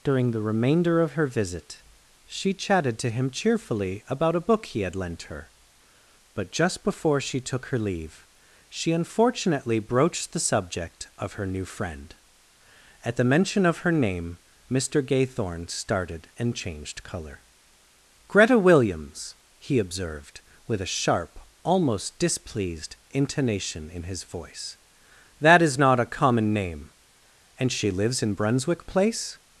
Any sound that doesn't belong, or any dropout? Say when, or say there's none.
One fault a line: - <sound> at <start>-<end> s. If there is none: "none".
none